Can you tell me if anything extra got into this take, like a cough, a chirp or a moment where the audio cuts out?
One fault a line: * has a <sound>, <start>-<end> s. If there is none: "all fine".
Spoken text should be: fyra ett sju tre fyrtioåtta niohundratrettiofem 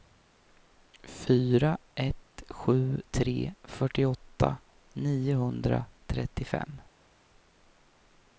all fine